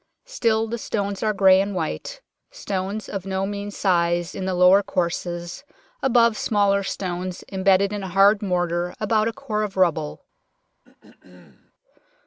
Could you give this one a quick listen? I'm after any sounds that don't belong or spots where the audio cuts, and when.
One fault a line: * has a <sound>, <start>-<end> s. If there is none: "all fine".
* has a throat clearing, 10.8-11.7 s